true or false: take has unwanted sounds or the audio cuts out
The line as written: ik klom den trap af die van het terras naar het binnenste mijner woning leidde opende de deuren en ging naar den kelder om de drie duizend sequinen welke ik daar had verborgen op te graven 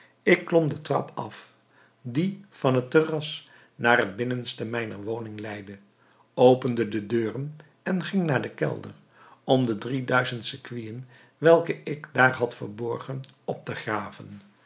false